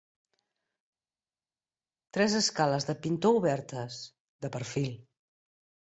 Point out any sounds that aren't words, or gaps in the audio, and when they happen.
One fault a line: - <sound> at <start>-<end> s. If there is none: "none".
none